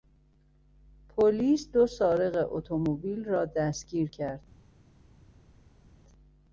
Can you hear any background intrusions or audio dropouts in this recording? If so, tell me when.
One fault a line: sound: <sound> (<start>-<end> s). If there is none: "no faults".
no faults